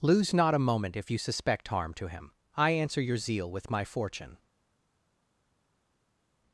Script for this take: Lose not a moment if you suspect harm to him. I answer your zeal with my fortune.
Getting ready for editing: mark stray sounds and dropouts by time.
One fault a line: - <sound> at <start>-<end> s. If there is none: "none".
none